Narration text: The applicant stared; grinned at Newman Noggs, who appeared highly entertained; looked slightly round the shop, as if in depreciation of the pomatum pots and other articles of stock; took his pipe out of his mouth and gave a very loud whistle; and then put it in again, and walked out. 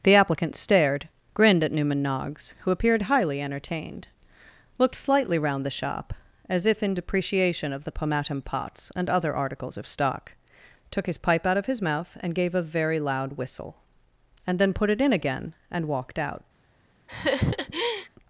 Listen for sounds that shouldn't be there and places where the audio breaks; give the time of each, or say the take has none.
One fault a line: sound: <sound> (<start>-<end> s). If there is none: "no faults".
sound: laugh (17.1-18.1 s)